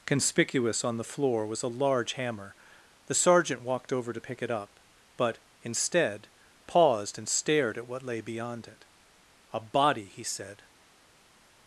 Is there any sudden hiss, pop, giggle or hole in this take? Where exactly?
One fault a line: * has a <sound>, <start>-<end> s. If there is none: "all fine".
all fine